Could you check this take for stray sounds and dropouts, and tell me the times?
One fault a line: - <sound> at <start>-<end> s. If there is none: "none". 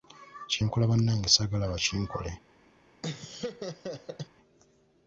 - laugh at 3.0-4.3 s